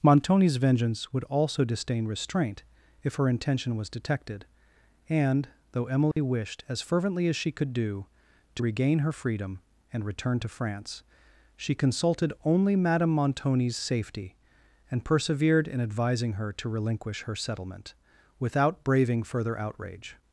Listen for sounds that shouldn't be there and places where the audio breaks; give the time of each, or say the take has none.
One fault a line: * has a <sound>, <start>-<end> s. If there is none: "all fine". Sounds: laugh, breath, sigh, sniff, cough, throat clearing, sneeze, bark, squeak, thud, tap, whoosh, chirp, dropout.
* has a dropout, 6.1-6.2 s